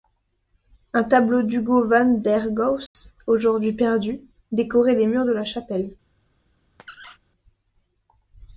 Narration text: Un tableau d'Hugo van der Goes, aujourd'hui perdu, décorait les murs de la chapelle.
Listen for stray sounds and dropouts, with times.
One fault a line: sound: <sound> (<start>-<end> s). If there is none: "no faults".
sound: dropout (2.9-3.0 s)
sound: squeak (6.8-7.2 s)